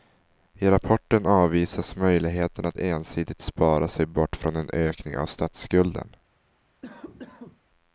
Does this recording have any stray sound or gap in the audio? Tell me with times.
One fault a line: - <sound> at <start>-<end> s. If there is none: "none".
- cough at 6.8-7.6 s